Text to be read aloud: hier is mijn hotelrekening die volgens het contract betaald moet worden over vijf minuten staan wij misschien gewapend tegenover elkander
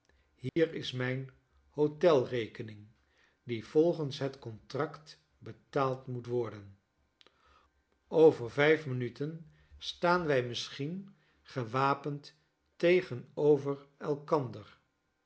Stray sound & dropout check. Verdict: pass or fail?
fail